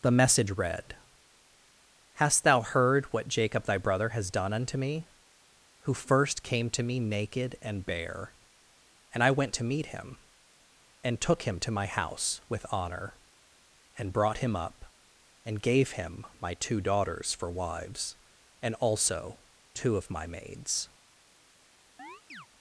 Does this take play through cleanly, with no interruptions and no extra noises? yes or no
no